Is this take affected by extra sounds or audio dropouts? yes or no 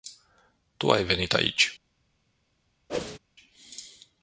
yes